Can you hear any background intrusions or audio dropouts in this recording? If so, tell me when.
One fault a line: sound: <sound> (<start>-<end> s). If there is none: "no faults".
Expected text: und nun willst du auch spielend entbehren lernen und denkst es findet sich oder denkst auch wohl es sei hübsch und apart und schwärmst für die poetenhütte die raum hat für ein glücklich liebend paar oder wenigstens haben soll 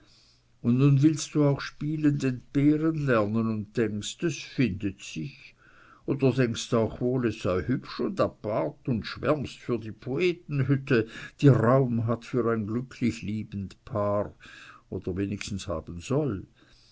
no faults